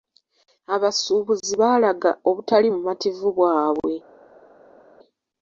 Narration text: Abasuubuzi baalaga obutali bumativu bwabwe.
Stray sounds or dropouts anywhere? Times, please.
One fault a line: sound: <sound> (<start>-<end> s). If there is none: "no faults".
no faults